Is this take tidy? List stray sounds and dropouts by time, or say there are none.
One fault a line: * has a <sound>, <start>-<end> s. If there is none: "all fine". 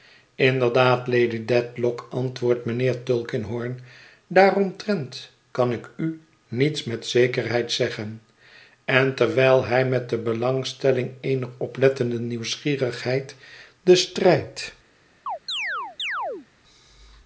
* has a chirp, 15.3-16.5 s